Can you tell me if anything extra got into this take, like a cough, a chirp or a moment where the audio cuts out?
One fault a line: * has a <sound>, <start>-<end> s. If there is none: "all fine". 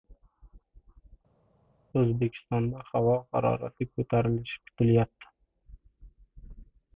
all fine